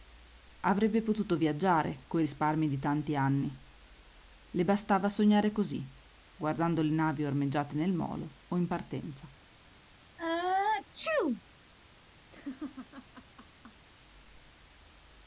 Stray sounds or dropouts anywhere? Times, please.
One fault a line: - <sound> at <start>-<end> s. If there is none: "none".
- sneeze at 10.2-11.4 s
- laugh at 12.3-13.9 s